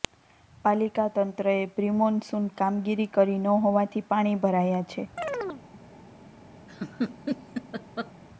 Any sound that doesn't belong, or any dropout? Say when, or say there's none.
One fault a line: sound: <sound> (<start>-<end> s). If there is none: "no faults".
sound: chirp (5.2-5.6 s)
sound: laugh (6.7-8.1 s)